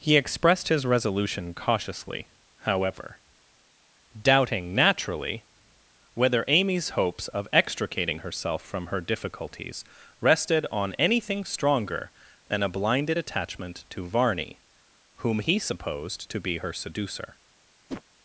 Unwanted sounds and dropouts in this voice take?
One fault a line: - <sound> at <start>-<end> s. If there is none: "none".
- whoosh at 17.9-18.0 s